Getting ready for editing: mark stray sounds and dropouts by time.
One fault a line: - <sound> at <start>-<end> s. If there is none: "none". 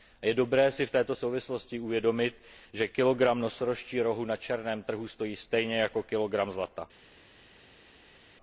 none